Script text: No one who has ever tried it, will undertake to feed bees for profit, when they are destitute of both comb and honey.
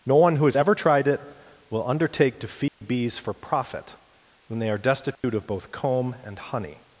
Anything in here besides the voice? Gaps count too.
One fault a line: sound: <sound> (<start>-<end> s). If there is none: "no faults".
sound: dropout (2.7-2.8 s)
sound: dropout (5.1-5.2 s)